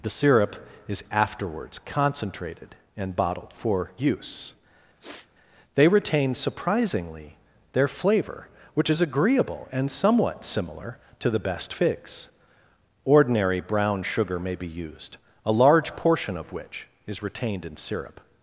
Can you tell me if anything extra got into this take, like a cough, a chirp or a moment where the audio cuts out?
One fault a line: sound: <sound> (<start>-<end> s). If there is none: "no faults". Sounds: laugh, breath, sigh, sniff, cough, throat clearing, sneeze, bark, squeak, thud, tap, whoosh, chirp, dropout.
sound: sniff (5.0-5.3 s)